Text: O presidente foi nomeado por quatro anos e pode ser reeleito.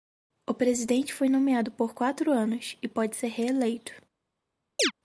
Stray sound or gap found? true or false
true